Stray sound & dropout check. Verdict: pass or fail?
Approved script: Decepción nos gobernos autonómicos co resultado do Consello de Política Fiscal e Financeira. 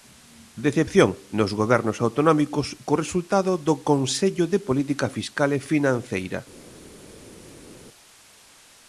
pass